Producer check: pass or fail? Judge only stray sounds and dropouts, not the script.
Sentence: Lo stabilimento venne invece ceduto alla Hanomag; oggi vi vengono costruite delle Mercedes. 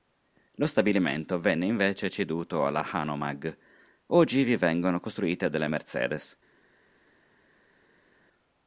pass